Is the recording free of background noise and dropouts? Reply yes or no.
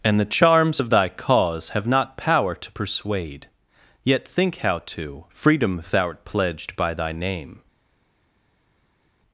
yes